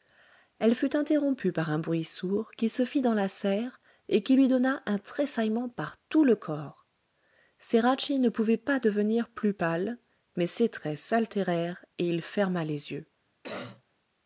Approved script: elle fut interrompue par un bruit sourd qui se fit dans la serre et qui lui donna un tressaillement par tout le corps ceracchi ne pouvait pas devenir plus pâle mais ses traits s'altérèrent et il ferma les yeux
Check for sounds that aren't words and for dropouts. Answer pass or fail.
fail